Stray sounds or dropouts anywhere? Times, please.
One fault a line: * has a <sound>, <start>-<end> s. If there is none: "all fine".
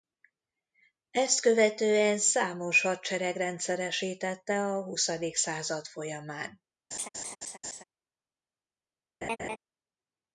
* has a laugh, 6.9-7.8 s
* has a laugh, 9.2-9.6 s